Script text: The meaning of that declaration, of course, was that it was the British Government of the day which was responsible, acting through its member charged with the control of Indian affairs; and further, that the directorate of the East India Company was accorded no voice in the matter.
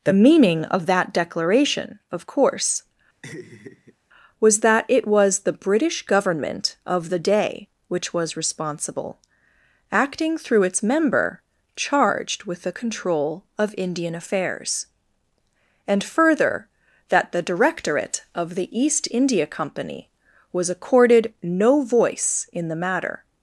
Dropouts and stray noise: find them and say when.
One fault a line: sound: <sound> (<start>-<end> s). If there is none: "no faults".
sound: laugh (3.2-4.0 s)